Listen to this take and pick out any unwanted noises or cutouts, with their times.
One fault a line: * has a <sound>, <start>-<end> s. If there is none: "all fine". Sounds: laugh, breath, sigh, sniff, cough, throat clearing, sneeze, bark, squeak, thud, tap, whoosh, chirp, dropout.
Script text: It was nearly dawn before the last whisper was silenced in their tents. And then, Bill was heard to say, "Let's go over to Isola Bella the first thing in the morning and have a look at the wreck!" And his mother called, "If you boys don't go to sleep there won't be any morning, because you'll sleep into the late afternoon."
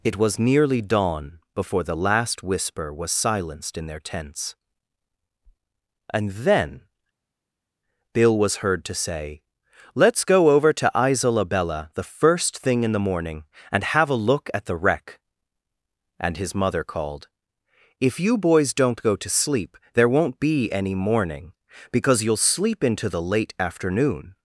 all fine